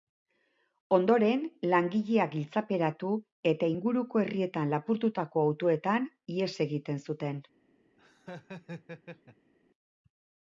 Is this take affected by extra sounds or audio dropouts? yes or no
yes